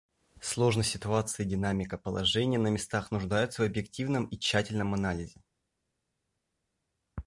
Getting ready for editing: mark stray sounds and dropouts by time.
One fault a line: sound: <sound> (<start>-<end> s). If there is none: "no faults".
no faults